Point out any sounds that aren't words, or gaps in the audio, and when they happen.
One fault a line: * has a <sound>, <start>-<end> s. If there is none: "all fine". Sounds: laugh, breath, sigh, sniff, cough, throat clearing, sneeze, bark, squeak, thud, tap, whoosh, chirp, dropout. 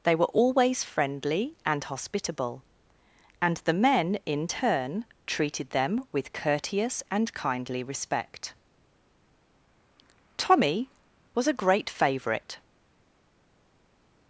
all fine